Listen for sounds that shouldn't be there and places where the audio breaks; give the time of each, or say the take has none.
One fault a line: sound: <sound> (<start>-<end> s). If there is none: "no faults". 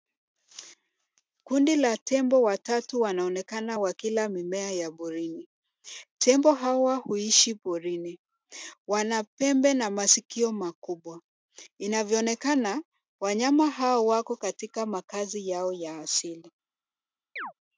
sound: chirp (17.4-17.5 s)